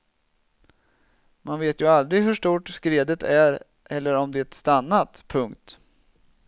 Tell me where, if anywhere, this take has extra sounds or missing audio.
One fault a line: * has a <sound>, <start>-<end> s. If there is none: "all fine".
all fine